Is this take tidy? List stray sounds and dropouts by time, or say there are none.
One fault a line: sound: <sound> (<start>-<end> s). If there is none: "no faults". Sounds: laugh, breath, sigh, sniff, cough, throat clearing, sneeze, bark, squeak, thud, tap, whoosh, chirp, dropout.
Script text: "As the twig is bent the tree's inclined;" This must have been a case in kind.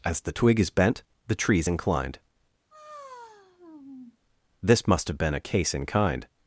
sound: sigh (2.7-4.2 s)